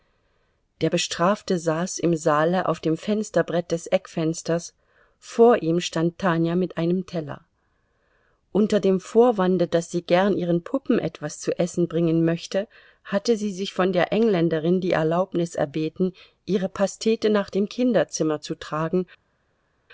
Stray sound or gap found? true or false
false